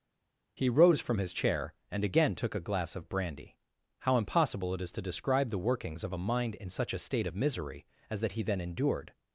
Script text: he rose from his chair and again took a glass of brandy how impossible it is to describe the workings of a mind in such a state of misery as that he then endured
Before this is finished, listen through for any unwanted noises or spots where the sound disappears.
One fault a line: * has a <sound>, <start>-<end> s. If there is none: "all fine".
all fine